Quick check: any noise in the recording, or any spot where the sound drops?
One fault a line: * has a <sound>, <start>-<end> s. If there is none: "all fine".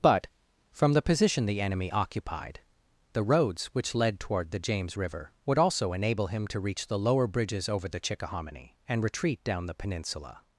all fine